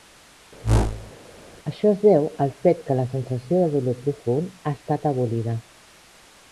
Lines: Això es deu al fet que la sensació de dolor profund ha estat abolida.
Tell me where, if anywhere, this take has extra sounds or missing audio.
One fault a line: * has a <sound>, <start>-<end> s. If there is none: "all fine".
* has a whoosh, 0.6-1.1 s